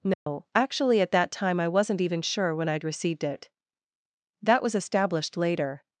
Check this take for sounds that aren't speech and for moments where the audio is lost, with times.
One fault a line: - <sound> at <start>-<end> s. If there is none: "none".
- dropout at 0.1-0.3 s